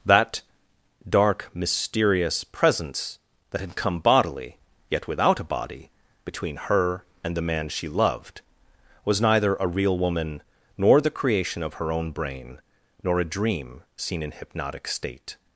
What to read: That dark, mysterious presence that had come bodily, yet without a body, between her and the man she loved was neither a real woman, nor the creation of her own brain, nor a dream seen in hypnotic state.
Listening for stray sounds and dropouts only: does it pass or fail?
pass